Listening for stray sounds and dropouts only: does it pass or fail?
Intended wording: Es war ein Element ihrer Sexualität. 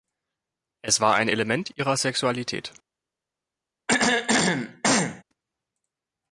fail